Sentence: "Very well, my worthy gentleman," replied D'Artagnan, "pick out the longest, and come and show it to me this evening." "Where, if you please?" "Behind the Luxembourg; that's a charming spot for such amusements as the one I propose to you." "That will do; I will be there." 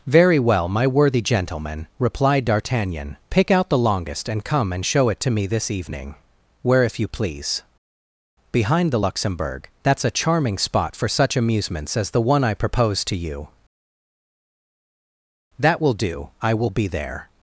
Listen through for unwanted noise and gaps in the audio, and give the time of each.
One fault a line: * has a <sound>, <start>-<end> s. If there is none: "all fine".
all fine